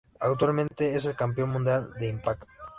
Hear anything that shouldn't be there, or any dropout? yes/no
yes